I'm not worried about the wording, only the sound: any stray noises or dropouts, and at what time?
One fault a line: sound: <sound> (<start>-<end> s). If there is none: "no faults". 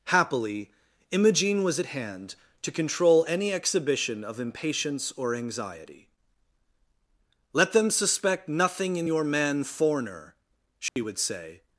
sound: dropout (10.9-11.0 s)